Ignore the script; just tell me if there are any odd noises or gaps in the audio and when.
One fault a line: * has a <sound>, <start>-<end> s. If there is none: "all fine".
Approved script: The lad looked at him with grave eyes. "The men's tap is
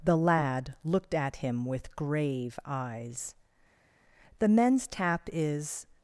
all fine